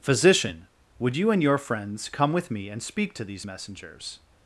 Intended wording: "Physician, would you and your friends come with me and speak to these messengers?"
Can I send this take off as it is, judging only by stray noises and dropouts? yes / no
yes